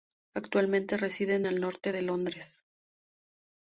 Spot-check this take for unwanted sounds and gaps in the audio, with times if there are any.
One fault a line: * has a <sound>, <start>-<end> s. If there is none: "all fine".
all fine